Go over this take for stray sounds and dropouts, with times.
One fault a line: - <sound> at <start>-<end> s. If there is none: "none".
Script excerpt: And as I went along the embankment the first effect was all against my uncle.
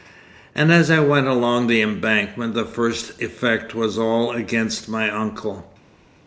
none